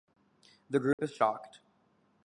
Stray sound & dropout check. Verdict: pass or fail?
fail